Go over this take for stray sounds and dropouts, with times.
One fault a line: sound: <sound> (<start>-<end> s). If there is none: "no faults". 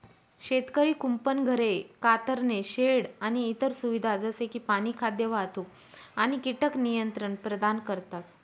no faults